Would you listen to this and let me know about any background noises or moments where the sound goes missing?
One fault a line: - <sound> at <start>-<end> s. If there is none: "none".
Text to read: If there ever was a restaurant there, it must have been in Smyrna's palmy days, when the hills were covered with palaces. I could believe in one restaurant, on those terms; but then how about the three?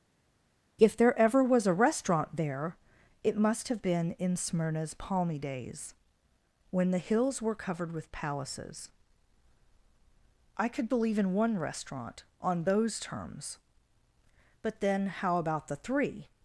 none